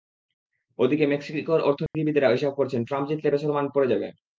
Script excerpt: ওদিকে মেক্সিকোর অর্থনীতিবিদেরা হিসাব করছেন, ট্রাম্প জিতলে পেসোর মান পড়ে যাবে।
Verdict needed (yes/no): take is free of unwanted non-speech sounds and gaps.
no